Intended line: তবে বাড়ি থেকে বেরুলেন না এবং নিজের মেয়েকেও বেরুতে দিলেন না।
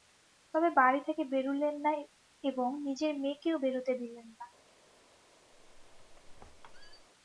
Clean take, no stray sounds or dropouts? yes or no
no